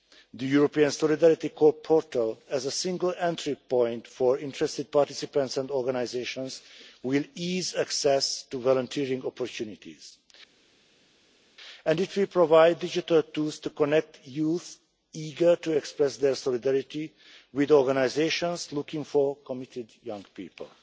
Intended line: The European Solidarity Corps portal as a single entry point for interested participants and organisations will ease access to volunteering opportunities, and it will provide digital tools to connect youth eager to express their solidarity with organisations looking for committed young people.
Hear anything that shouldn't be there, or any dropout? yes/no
no